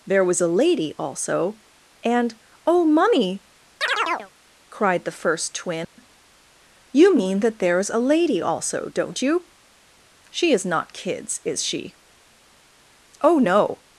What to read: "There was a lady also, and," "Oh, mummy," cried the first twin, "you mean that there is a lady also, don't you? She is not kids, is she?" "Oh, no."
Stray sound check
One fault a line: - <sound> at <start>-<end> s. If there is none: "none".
- chirp at 3.8-4.3 s
- dropout at 5.8-6.0 s